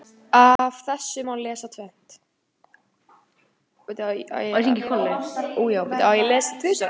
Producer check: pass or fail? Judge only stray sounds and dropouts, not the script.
fail